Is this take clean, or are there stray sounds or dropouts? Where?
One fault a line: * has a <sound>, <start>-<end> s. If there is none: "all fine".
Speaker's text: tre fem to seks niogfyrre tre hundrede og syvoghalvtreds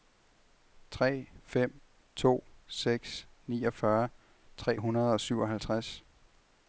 all fine